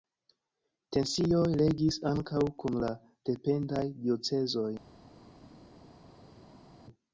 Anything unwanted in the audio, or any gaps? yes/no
no